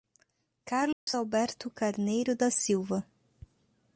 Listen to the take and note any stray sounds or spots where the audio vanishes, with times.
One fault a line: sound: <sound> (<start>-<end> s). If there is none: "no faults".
sound: dropout (0.9-1.1 s)